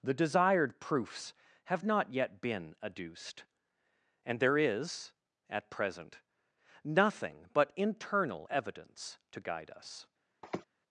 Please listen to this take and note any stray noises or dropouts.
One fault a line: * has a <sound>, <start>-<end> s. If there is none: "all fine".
* has a sniff, 10.4-10.6 s